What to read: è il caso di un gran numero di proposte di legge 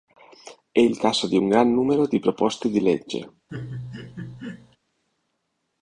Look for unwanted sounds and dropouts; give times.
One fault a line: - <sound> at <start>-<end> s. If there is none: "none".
- laugh at 3.5-4.8 s